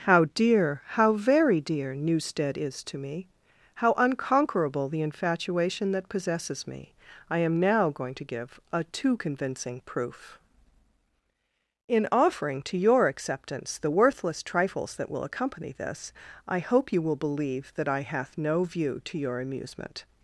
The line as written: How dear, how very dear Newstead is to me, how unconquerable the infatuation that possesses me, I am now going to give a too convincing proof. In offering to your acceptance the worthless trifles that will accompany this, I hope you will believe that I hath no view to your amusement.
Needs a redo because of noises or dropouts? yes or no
no